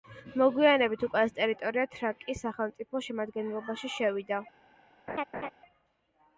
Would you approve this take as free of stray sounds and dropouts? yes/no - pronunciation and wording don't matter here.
no